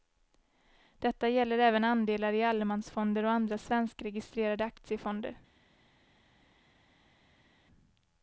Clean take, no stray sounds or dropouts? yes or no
yes